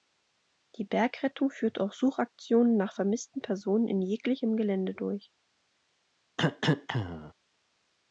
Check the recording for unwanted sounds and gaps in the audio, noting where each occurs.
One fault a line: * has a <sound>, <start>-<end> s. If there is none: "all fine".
* has a cough, 6.4-7.3 s